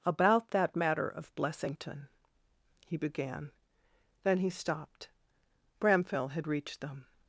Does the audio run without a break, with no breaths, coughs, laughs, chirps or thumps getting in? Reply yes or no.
yes